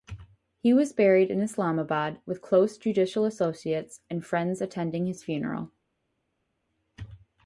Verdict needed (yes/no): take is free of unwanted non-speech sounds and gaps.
yes